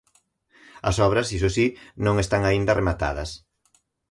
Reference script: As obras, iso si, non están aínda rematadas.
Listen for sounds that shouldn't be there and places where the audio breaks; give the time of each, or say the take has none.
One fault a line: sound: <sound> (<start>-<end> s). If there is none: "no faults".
no faults